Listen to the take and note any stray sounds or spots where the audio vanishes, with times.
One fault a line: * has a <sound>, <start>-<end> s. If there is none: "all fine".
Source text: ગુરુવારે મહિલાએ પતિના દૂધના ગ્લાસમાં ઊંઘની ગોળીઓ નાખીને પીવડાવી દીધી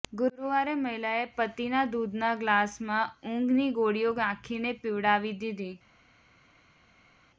all fine